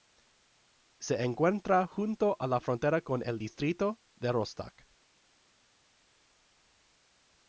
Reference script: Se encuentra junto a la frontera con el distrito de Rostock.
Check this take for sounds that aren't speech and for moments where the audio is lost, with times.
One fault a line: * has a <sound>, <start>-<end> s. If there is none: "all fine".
all fine